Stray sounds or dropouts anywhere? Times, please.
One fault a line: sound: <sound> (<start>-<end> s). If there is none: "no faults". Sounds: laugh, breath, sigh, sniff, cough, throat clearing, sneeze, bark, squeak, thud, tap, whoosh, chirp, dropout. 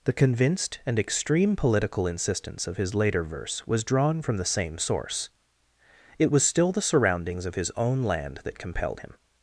no faults